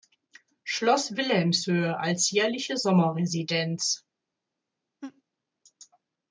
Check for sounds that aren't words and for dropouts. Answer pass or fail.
fail